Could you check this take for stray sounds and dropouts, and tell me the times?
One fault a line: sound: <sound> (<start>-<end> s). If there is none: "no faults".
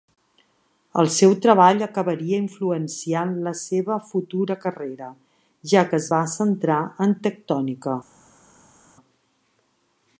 no faults